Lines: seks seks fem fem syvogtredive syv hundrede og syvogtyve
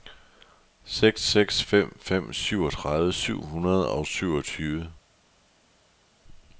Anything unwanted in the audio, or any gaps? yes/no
no